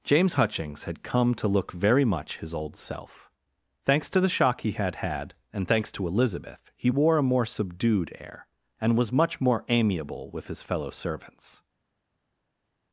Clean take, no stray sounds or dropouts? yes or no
yes